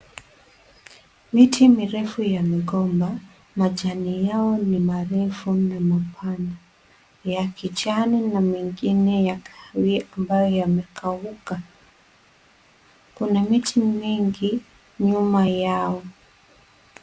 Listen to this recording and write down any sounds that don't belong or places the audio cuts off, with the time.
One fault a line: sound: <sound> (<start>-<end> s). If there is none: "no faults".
no faults